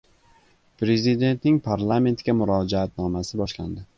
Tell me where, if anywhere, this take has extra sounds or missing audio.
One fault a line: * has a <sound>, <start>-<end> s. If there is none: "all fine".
all fine